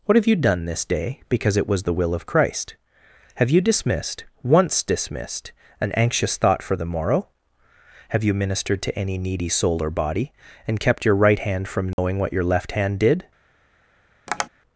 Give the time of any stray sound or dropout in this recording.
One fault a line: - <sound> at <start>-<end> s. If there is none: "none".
- dropout at 11.9-12.0 s
- tap at 14.3-14.5 s